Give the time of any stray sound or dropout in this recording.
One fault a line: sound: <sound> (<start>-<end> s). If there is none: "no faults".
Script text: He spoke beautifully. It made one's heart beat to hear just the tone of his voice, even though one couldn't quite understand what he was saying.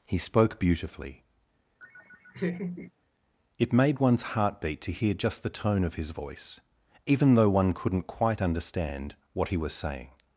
sound: laugh (1.8-2.9 s)